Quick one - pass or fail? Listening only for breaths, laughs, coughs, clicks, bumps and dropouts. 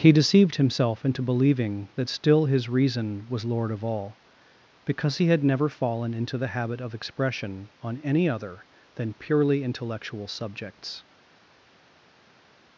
pass